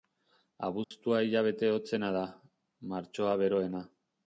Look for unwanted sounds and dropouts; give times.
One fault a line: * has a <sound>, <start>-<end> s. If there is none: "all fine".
* has a dropout, 0.8-0.9 s